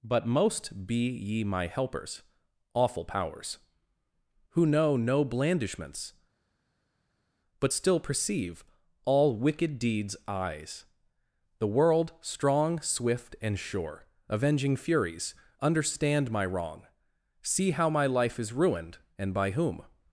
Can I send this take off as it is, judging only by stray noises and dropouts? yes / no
yes